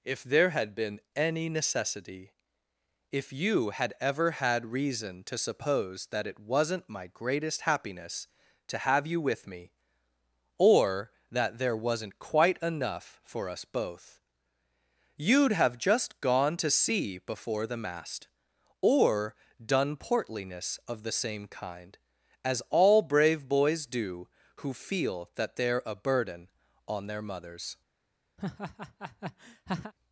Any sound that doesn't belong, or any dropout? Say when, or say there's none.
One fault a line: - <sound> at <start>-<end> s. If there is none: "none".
- laugh at 28.4-29.9 s